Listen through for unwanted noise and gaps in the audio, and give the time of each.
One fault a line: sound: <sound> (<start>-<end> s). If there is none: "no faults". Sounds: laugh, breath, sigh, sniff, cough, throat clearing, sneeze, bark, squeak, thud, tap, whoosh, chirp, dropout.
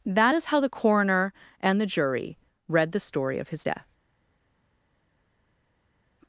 no faults